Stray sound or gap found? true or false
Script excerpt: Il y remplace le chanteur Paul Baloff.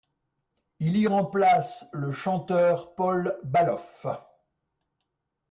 false